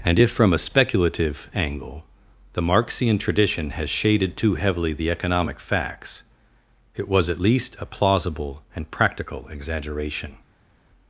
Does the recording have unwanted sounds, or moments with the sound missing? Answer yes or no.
no